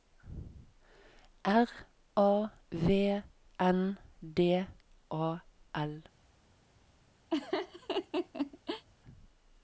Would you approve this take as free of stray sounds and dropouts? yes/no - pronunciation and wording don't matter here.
no